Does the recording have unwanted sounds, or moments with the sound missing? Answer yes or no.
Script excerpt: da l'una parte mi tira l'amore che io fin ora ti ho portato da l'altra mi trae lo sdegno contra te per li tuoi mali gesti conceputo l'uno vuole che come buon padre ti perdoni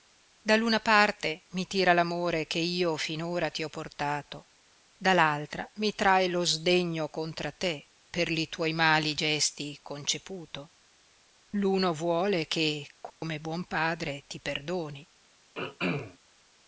yes